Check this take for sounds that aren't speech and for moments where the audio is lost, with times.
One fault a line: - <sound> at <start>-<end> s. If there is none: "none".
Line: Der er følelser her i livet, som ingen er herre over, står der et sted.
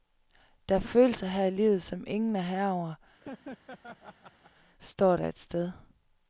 - laugh at 3.2-4.5 s